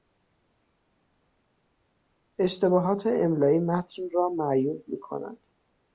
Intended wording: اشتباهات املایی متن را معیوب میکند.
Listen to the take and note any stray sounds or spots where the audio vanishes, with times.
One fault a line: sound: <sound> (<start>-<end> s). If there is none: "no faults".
no faults